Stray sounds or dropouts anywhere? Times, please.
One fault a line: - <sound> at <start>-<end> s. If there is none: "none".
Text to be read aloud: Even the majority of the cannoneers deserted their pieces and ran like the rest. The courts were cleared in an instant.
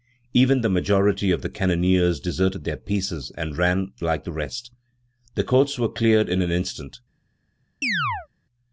- chirp at 7.8-8.3 s